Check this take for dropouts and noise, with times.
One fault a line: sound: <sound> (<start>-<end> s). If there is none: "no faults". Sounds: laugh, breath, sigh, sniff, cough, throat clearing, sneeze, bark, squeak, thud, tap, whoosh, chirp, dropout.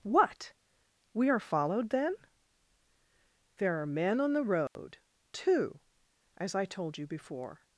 sound: dropout (4.7-4.8 s)